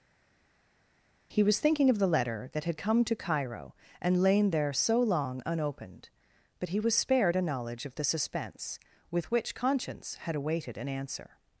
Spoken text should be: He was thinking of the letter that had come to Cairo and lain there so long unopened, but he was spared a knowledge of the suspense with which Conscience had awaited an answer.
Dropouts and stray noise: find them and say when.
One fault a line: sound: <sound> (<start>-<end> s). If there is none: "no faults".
no faults